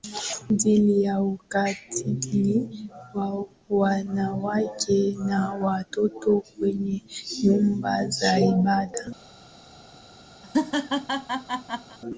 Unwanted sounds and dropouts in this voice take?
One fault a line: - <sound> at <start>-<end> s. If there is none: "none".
- laugh at 10.4-12.0 s